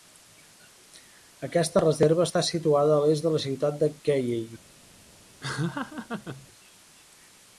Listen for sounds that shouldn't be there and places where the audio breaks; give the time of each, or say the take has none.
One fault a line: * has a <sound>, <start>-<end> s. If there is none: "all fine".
* has a laugh, 5.4-6.5 s